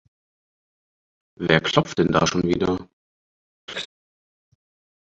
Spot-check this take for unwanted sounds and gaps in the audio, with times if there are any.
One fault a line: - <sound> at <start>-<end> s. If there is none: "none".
- laugh at 3.7-3.9 s